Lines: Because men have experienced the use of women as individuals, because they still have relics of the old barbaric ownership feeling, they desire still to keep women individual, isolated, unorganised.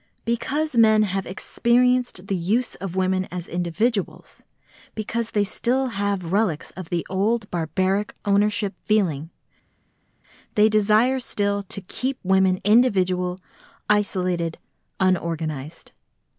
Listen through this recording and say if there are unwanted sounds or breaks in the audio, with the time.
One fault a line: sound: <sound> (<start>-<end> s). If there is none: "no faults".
no faults